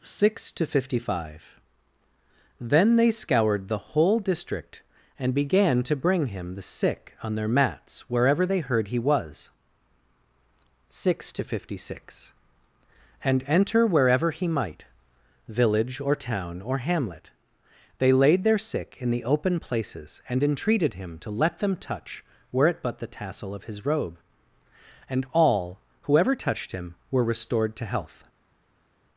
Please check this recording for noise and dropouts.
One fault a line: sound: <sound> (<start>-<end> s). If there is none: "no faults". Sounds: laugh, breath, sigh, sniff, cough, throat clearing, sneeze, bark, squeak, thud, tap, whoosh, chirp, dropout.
no faults